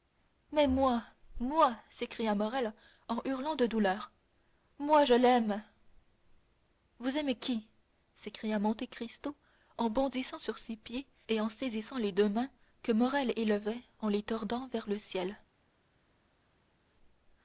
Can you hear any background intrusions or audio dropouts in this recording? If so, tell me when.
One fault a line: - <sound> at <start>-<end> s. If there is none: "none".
none